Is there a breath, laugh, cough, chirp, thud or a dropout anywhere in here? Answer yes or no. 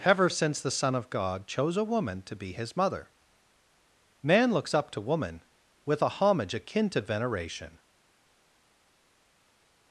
no